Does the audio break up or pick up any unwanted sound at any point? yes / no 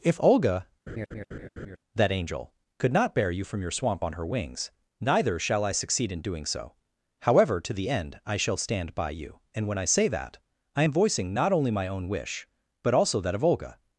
yes